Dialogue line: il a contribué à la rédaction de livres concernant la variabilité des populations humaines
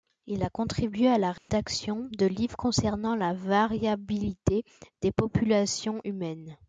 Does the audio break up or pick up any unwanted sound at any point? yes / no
yes